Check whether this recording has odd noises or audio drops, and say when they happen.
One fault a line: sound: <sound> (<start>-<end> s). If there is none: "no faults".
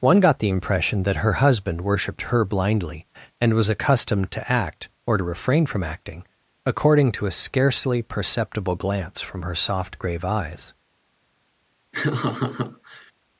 sound: laugh (11.9-13.1 s)